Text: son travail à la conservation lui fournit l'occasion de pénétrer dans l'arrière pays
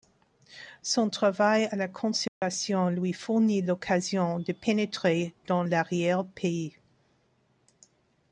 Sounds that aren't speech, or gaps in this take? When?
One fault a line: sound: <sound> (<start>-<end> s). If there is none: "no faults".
sound: dropout (2.3-2.4 s)